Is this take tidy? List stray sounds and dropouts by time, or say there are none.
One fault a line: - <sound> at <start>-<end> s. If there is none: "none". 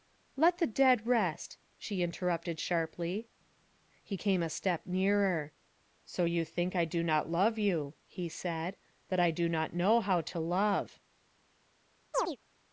- chirp at 12.1-12.4 s